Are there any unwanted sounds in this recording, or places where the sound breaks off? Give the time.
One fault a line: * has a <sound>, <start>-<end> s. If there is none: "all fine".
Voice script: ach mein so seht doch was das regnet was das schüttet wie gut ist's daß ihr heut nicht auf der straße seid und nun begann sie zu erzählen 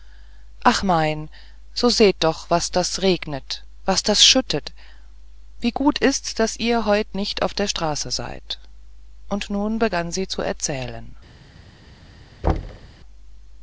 * has a thud, 12.4-12.9 s